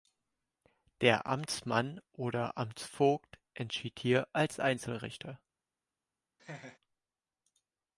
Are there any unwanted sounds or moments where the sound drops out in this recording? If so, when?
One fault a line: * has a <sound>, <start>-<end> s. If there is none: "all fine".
* has a laugh, 6.4-6.8 s